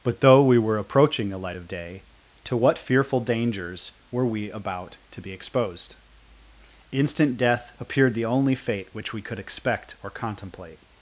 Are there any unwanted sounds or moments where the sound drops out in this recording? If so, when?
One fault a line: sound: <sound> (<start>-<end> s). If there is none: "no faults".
no faults